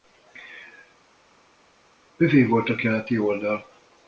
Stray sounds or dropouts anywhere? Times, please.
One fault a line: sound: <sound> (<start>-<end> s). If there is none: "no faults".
no faults